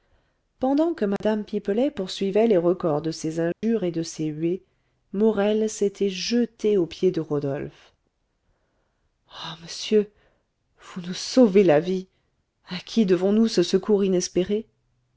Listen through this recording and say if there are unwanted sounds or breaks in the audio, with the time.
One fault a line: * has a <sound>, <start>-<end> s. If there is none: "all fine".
* has a dropout, 1.2-1.2 s
* has a dropout, 3.5-3.6 s